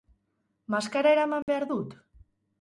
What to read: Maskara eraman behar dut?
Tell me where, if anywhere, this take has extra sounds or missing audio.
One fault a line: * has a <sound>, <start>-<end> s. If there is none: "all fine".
* has a dropout, 1.4-1.5 s